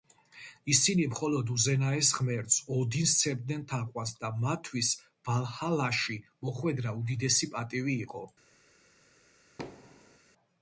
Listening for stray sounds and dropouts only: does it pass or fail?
fail